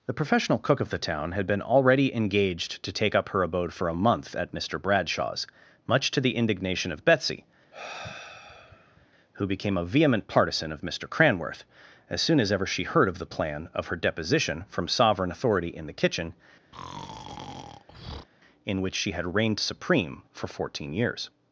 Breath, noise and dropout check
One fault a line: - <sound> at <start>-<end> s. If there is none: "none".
- sigh at 7.7-9.1 s
- breath at 16.7-18.3 s